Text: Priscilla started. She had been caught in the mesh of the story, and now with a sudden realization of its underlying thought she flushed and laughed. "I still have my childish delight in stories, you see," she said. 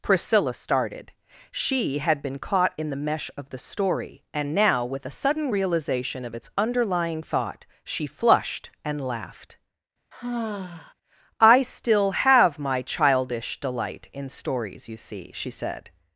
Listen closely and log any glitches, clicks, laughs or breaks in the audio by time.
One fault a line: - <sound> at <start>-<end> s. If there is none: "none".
- sigh at 10.1-10.9 s